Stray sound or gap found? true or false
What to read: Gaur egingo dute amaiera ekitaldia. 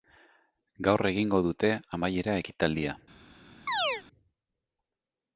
true